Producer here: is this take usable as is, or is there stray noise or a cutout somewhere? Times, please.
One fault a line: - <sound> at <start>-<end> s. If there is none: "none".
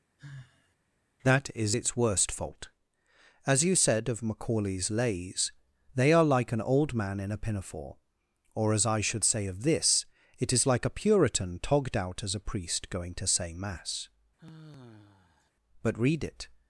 - sigh at 0.2-0.8 s
- sigh at 14.4-15.5 s